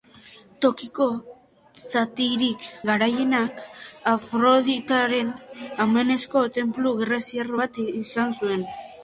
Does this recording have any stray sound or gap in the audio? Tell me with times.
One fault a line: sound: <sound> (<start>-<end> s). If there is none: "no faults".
no faults